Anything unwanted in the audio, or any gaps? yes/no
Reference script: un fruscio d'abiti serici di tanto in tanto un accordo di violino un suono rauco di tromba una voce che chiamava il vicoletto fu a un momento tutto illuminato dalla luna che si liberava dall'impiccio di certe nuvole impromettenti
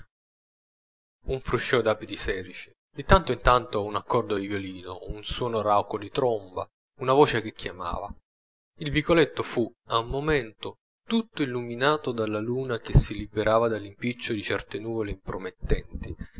no